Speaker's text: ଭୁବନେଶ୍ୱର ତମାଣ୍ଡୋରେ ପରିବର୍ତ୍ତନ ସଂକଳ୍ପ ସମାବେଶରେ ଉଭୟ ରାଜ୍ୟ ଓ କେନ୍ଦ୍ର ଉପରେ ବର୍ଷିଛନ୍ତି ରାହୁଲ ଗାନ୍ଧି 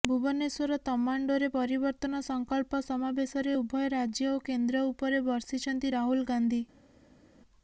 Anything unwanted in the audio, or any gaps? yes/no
no